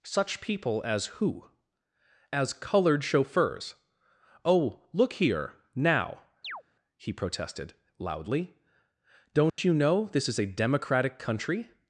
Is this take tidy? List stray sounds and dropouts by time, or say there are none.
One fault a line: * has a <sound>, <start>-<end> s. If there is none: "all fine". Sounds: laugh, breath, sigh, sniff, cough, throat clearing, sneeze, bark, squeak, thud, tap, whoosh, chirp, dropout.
* has a chirp, 6.4-6.6 s
* has a dropout, 9.5-9.6 s